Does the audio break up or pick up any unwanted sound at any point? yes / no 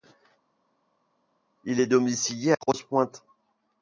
no